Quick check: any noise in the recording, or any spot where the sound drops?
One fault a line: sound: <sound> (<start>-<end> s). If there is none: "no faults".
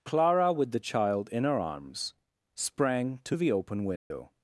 sound: dropout (4.0-4.1 s)